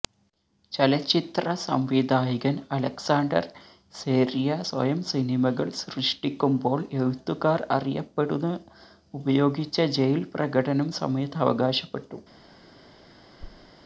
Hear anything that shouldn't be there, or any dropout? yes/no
yes